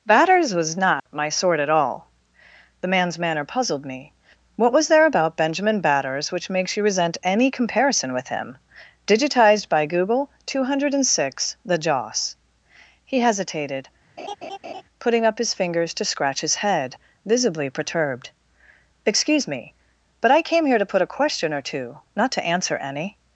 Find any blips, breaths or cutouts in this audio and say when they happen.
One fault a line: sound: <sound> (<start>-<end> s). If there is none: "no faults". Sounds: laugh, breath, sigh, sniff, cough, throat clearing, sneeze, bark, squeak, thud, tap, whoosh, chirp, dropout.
sound: dropout (1.0-1.1 s)
sound: laugh (14.2-14.8 s)